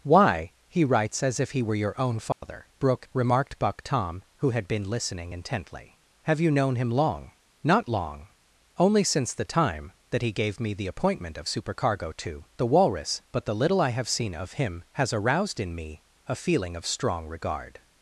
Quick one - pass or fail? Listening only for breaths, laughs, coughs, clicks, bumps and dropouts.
fail